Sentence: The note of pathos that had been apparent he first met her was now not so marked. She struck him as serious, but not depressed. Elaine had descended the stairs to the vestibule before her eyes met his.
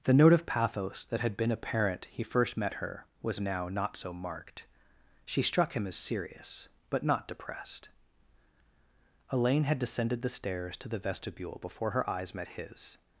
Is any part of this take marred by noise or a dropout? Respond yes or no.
no